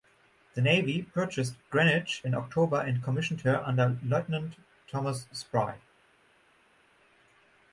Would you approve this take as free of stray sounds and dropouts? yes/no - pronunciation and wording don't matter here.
yes